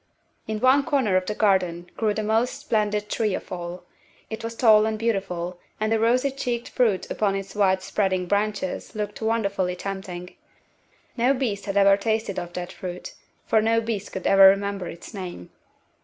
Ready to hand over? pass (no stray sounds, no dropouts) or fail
pass